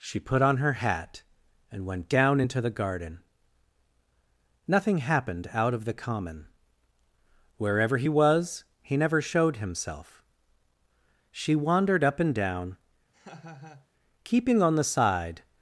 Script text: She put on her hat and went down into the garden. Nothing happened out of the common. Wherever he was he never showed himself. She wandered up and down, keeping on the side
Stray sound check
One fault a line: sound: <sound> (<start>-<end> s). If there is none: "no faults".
sound: laugh (13.1-13.9 s)